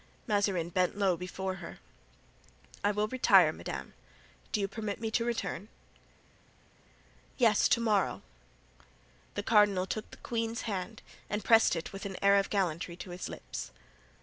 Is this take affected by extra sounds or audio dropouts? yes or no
no